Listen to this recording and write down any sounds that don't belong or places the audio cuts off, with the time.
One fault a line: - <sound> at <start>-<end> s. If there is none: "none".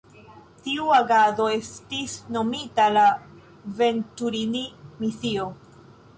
none